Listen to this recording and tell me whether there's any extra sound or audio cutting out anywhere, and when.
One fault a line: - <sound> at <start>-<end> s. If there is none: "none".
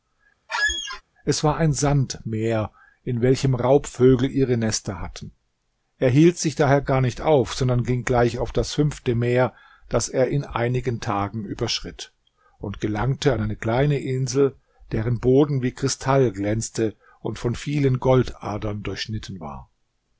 - squeak at 0.5-1.0 s